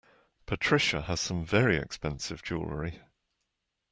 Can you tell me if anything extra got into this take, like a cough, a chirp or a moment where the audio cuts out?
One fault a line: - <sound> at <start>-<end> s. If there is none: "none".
none